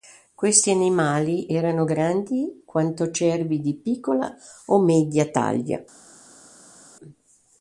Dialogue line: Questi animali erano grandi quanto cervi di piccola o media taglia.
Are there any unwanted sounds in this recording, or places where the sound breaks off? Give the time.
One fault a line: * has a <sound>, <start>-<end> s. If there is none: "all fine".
all fine